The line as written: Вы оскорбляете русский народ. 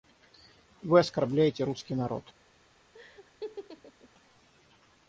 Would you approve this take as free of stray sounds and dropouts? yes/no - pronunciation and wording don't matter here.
no